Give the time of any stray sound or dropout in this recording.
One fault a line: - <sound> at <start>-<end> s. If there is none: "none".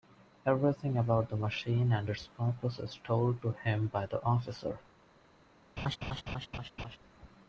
- laugh at 5.8-7.0 s